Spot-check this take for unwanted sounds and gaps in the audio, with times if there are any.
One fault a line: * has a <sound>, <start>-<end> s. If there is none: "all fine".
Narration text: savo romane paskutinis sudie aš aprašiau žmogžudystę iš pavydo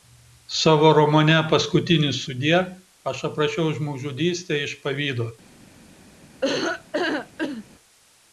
* has a laugh, 6.4-7.6 s